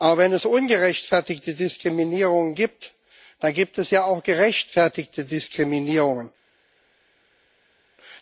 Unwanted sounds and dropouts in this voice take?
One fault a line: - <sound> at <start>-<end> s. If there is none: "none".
none